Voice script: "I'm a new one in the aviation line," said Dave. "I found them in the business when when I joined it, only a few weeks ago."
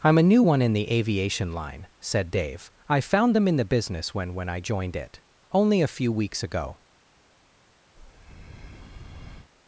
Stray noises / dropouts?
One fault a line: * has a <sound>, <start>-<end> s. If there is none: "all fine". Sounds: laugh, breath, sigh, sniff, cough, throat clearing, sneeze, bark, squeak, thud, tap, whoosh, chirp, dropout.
* has a breath, 8.0-9.5 s